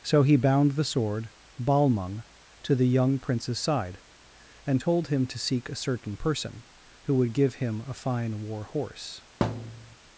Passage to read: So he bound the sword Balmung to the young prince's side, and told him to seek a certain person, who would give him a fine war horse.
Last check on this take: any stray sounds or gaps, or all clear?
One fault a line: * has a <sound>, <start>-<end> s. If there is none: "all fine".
* has a thud, 9.4-10.0 s